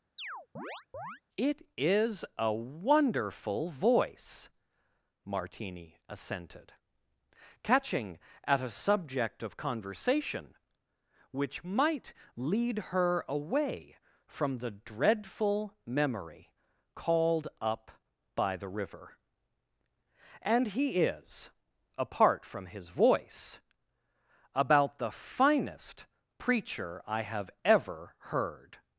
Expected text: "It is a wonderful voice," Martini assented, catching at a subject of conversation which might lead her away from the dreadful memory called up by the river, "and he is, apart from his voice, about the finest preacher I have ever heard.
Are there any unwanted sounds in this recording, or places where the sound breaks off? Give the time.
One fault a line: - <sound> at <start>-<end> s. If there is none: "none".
- chirp at 0.2-1.2 s